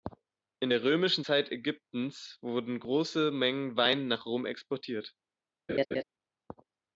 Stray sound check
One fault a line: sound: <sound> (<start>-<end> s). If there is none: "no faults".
sound: laugh (5.7-6.0 s)